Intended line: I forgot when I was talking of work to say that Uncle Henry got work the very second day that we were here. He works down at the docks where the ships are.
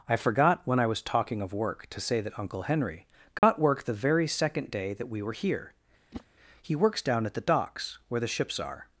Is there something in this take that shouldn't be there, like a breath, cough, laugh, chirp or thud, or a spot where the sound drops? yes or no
yes